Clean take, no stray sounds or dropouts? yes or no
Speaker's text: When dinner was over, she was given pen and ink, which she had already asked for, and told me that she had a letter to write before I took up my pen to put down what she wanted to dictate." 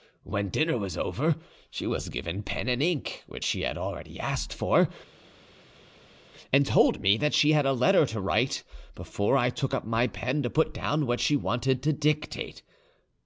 yes